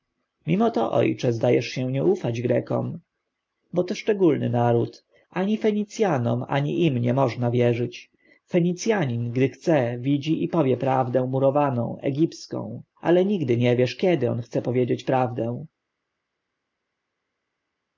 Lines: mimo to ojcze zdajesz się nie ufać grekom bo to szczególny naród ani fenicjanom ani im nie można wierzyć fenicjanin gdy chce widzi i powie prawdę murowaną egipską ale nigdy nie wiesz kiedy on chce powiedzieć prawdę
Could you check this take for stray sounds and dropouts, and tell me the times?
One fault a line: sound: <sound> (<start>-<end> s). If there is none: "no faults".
no faults